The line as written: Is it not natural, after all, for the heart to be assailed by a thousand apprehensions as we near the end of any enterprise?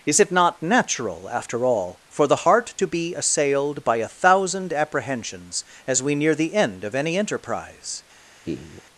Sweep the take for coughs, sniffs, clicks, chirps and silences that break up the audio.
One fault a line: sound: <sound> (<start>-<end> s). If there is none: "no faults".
sound: laugh (8.4-8.8 s)